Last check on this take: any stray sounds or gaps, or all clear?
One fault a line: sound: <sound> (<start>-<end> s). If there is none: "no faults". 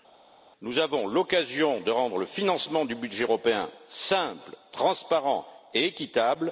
no faults